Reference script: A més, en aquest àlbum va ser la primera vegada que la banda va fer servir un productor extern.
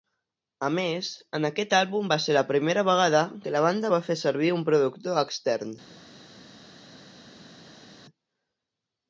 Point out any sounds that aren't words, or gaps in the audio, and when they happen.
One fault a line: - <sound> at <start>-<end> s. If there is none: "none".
none